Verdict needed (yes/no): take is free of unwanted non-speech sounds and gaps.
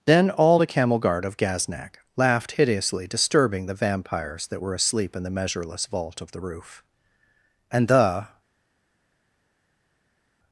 yes